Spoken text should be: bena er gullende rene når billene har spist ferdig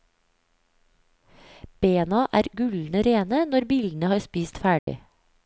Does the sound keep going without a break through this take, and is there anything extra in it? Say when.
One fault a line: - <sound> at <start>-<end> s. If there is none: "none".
- dropout at 4.8-4.9 s